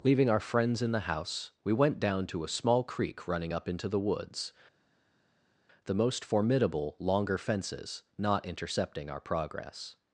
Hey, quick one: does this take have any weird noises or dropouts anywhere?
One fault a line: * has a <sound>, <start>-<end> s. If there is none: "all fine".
all fine